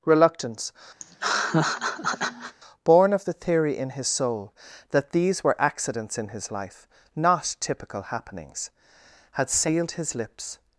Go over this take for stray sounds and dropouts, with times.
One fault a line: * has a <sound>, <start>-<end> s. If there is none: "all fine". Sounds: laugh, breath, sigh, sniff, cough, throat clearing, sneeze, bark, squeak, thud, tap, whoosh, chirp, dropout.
* has a laugh, 1.0-2.6 s